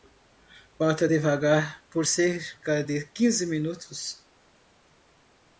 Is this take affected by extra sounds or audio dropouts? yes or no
no